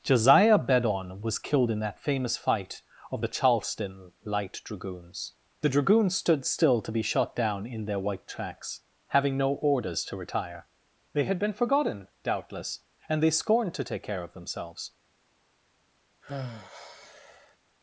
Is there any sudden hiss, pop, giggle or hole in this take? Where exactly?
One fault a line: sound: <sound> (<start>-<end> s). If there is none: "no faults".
sound: sigh (16.2-17.6 s)